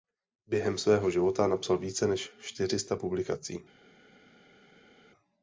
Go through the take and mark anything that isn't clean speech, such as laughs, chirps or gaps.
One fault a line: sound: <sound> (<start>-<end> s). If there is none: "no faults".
no faults